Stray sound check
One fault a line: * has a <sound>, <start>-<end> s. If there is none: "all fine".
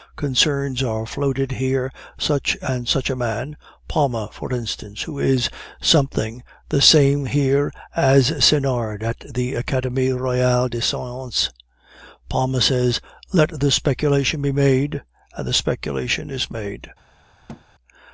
* has a thud, 17.5-17.6 s